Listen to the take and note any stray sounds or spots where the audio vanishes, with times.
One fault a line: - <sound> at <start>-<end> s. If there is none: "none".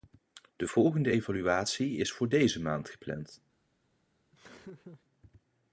- laugh at 4.3-5.0 s